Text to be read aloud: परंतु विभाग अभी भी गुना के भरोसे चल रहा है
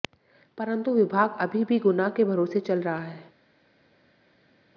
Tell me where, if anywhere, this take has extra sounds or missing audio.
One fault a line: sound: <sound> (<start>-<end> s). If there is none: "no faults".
no faults